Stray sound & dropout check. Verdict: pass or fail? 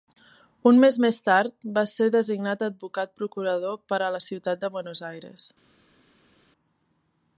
pass